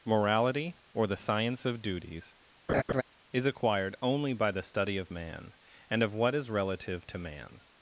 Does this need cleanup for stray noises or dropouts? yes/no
yes